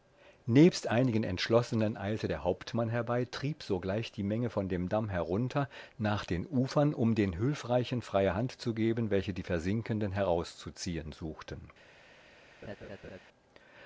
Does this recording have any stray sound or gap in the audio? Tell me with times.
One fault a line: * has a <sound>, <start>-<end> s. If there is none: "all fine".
* has a laugh, 12.6-13.2 s